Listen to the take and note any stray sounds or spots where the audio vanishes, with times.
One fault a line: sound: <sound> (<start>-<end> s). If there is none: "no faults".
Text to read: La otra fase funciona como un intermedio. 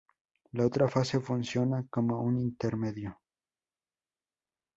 no faults